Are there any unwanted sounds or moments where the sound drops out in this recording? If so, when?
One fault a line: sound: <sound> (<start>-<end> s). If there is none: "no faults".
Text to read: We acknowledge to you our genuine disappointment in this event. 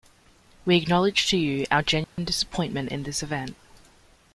sound: dropout (2.0-2.2 s)